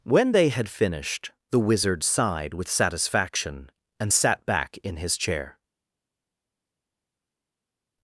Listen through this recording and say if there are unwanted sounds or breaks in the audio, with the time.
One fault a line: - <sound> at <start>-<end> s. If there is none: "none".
none